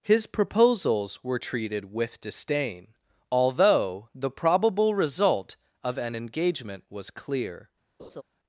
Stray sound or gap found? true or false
true